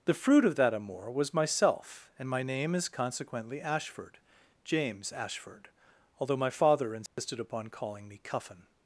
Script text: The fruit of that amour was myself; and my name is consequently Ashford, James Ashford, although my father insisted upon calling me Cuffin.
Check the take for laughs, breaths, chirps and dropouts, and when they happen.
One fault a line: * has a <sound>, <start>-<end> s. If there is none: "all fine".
* has a dropout, 7.1-7.2 s